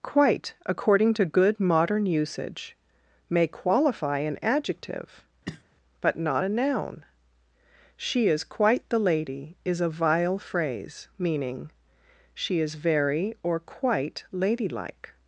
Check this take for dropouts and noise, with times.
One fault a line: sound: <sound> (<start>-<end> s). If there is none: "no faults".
sound: cough (5.4-5.6 s)